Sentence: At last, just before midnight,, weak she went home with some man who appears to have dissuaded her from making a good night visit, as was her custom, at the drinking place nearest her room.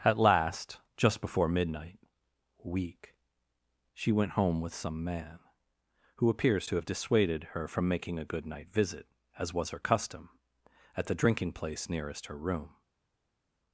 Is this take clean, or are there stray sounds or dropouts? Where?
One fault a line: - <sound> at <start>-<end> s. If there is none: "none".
none